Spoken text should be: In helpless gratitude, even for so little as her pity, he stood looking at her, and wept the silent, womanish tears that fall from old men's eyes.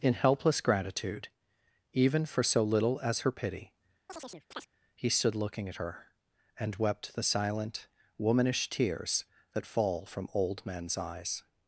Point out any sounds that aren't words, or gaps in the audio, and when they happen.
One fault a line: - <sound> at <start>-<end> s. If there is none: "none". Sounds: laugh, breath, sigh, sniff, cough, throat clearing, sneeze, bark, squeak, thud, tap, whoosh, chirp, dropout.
- chirp at 4.1-4.7 s